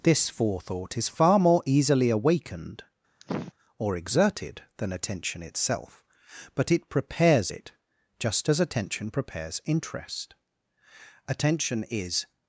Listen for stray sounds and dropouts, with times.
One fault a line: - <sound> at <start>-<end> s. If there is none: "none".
- sniff at 3.2-3.5 s